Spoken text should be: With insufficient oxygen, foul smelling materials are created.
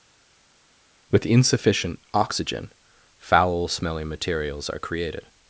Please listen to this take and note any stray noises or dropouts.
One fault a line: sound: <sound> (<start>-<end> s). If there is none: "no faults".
no faults